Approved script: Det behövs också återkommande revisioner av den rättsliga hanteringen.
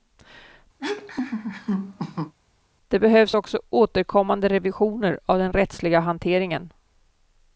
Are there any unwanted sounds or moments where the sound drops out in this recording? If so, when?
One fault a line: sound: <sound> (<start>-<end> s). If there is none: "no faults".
sound: laugh (0.8-2.3 s)